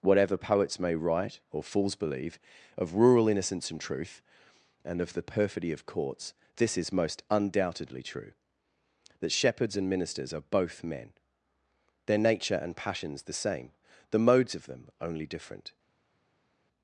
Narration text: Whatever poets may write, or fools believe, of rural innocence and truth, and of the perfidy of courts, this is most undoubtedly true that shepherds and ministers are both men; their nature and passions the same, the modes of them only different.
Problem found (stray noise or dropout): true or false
false